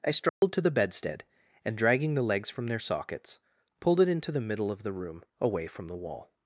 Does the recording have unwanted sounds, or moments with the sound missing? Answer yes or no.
yes